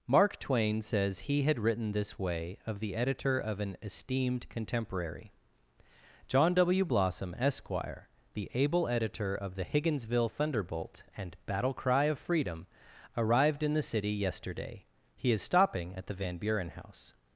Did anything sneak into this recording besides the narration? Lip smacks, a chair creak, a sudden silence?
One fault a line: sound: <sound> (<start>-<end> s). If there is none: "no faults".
no faults